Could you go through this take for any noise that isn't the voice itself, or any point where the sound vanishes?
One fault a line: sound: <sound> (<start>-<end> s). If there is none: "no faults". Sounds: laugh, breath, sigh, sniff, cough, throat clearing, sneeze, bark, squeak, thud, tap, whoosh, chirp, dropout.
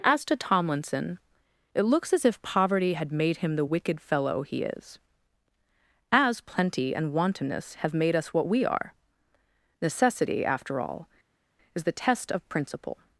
no faults